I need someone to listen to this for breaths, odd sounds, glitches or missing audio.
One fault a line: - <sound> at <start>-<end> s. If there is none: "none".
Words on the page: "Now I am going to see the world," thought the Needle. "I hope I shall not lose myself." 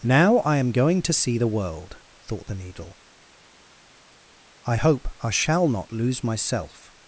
none